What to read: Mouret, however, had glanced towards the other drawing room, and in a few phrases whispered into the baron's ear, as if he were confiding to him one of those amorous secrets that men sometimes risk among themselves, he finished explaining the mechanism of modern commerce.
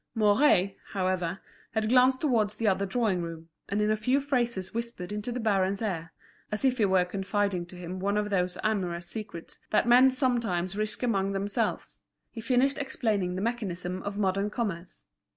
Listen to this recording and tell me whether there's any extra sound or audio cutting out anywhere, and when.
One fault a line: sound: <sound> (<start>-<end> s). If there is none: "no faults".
no faults